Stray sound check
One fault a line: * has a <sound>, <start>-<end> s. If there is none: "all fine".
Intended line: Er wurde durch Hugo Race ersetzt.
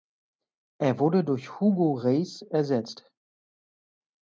all fine